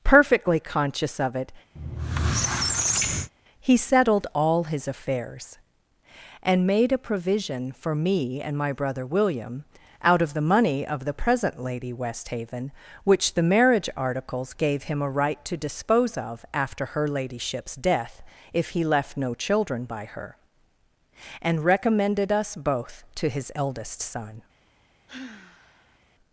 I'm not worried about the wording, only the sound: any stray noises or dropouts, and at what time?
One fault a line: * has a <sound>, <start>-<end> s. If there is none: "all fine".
* has a squeak, 1.8-3.3 s
* has a sigh, 25.1-26.0 s